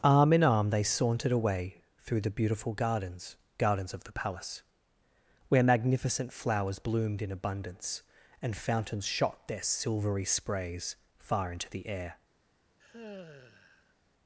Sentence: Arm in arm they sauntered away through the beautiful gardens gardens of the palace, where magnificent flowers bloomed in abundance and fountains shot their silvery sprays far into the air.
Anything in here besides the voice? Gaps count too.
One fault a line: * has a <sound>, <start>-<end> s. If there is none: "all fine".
* has a sigh, 12.8-14.0 s